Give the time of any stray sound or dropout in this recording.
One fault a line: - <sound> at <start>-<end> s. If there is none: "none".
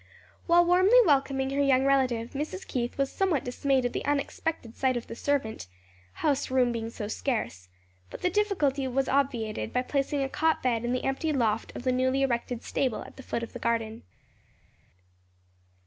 none